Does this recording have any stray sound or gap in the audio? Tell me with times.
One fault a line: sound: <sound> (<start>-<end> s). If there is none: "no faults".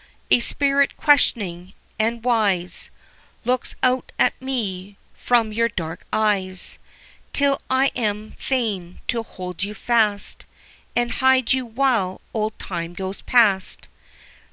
no faults